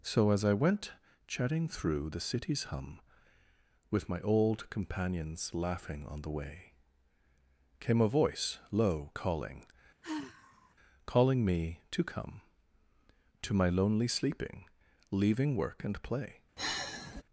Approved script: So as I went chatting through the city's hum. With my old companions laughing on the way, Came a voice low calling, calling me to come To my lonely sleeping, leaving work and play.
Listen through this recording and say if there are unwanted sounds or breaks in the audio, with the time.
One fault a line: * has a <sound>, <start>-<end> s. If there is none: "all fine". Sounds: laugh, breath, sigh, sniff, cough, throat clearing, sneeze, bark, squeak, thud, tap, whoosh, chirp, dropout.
* has a sigh, 10.0-10.7 s
* has a sigh, 16.6-17.2 s